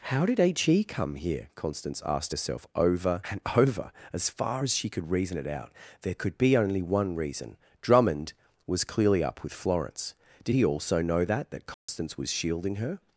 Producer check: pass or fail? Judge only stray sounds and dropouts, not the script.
fail